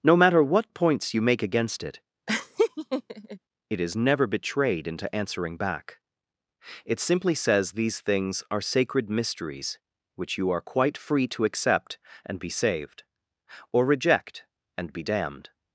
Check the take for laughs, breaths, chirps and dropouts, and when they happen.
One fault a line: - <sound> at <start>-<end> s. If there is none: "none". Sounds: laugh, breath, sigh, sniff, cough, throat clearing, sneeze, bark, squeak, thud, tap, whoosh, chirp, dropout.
- laugh at 2.3-3.4 s